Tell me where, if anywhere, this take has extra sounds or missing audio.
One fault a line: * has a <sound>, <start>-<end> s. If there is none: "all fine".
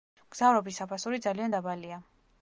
all fine